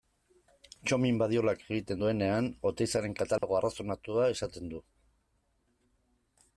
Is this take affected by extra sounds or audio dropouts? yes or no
yes